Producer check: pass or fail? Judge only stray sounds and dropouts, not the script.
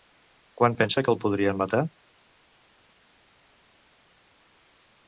pass